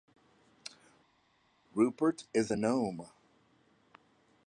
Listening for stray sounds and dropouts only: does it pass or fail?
pass